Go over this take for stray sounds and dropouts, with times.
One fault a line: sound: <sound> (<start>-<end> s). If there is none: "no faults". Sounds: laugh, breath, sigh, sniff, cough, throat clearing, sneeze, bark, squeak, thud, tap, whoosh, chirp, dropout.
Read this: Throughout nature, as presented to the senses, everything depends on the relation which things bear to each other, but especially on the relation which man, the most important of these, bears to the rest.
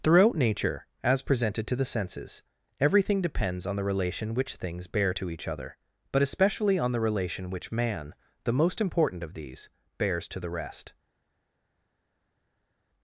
no faults